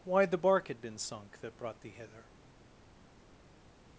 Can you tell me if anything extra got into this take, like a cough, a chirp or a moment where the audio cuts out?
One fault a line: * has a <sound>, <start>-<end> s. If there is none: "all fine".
all fine